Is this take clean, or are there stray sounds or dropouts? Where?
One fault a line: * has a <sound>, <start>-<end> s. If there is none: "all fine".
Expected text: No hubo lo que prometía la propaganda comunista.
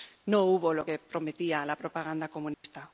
* has a dropout, 2.5-2.6 s